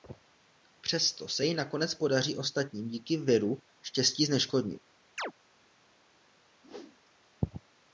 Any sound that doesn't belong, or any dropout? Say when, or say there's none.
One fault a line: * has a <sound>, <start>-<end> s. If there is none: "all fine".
* has a chirp, 5.2-5.3 s
* has a whoosh, 6.6-7.0 s